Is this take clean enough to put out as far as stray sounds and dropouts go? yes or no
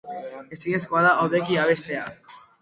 yes